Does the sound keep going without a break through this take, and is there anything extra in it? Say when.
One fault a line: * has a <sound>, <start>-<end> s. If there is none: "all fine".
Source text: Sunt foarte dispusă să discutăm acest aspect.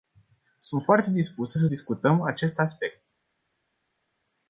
all fine